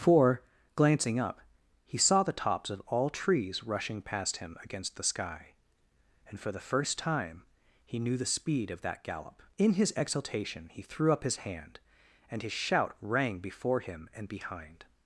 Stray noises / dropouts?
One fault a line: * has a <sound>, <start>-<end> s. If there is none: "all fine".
all fine